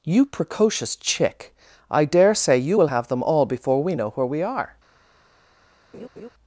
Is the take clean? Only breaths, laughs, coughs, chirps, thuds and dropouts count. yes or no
no